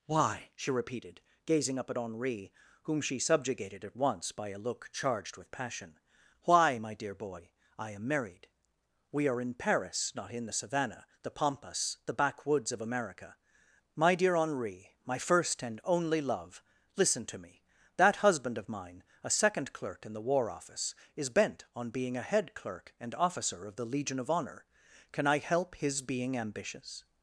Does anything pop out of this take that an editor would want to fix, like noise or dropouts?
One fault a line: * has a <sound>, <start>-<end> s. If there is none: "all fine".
all fine